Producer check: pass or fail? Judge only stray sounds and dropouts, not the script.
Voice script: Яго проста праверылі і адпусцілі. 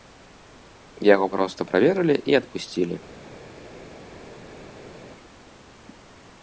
pass